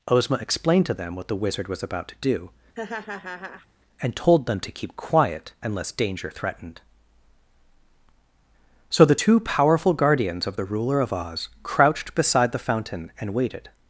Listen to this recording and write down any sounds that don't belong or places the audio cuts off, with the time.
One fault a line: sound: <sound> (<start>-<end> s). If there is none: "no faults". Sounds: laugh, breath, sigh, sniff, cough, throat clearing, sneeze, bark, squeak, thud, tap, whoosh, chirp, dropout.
sound: laugh (2.7-3.7 s)